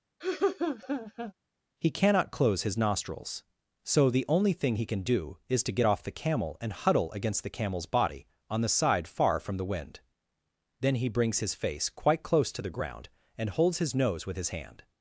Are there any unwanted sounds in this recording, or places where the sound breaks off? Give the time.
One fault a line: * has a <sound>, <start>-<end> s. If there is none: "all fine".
* has a laugh, 0.2-1.3 s